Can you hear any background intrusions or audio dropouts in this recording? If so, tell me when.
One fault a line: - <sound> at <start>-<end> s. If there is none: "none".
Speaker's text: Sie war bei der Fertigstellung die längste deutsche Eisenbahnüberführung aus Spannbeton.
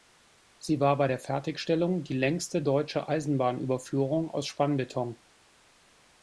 none